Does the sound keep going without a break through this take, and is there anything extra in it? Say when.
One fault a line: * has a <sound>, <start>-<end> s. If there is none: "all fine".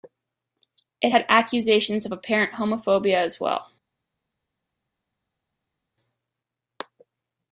all fine